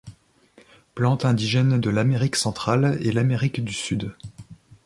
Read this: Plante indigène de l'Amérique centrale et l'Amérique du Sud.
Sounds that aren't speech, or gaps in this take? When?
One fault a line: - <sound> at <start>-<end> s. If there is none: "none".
none